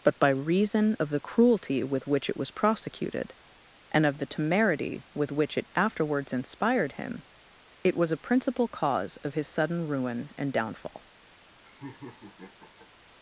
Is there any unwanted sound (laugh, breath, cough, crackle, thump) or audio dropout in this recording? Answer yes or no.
yes